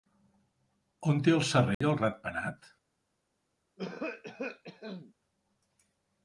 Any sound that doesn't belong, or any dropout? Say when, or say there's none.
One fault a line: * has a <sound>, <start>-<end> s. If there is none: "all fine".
* has a dropout, 1.7-1.8 s
* has a cough, 3.8-5.1 s